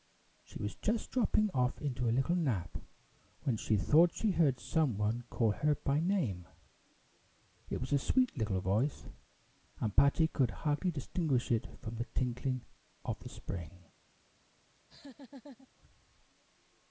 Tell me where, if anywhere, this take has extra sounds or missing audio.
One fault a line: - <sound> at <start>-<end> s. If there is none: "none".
- laugh at 14.8-15.7 s